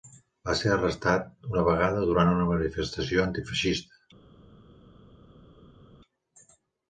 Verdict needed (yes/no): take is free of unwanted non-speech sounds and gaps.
yes